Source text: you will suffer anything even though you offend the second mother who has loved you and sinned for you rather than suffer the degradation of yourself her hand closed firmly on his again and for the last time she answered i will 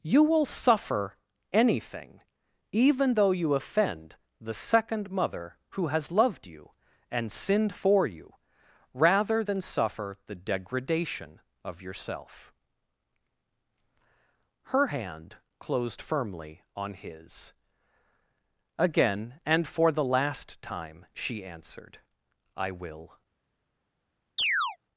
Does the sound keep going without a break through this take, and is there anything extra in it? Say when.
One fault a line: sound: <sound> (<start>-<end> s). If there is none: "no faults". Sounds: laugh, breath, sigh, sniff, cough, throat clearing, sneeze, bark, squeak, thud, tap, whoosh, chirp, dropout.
sound: chirp (24.4-24.8 s)